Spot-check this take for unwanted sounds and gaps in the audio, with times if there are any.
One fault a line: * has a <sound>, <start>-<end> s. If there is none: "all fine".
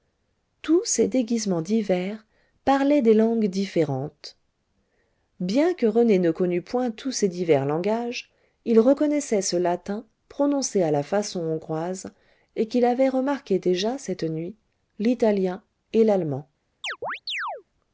* has a chirp, 16.8-17.6 s